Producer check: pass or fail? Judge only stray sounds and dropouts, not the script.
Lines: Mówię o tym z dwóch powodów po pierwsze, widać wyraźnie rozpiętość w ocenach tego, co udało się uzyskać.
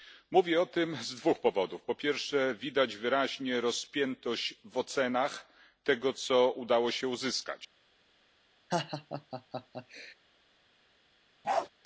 fail